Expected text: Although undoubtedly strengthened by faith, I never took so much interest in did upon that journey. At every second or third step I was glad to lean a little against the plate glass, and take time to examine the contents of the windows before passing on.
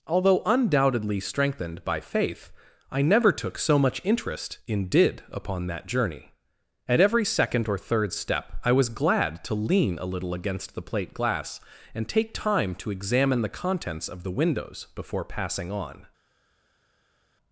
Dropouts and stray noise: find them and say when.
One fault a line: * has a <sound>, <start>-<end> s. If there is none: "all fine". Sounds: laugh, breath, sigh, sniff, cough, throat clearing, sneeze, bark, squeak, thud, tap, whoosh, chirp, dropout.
all fine